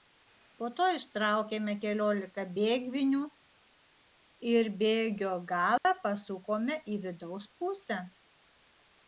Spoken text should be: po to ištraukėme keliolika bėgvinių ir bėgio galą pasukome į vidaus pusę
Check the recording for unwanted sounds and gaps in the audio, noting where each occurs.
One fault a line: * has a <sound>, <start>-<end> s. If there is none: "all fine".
* has a dropout, 5.8-5.9 s